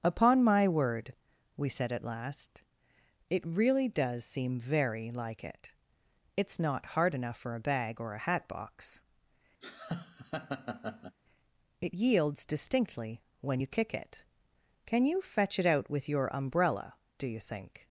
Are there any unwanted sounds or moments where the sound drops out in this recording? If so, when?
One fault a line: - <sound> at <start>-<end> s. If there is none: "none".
- laugh at 9.6-11.2 s